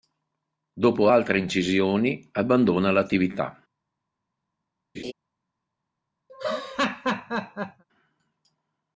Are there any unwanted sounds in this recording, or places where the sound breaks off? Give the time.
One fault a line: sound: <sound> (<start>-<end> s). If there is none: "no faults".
sound: laugh (4.9-5.1 s)
sound: laugh (6.3-7.8 s)